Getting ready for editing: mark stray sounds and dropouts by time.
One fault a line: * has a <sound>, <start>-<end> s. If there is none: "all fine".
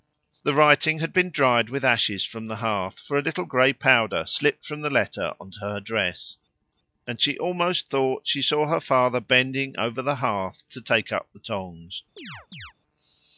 * has a chirp, 12.2-12.7 s